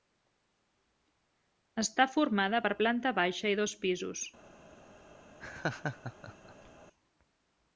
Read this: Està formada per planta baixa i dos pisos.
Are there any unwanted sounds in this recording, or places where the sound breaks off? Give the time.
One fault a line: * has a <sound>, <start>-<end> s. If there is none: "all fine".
* has a laugh, 5.4-6.7 s